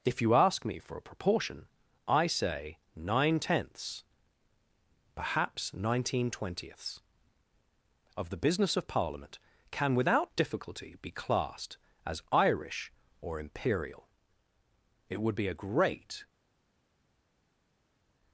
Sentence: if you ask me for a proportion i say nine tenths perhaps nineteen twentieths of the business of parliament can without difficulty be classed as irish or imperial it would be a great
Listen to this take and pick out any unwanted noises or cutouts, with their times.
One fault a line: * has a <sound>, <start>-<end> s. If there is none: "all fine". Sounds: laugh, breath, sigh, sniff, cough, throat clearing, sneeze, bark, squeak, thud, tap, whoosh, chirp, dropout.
all fine